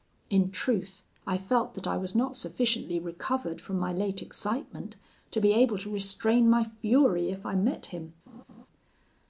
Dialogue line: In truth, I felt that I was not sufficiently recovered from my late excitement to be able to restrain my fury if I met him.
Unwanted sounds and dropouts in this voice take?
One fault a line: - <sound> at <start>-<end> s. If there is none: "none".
- laugh at 8.3-8.7 s